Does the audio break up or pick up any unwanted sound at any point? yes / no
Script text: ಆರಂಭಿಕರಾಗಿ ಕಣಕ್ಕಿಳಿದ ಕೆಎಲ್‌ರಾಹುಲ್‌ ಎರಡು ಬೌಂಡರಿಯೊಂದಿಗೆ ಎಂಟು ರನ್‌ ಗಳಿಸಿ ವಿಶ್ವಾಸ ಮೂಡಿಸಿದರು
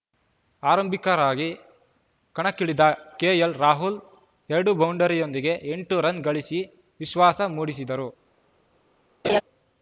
yes